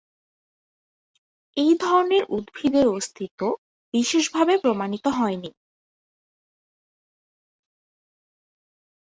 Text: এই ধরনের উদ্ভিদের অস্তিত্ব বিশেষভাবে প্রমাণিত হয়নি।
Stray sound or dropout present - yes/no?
no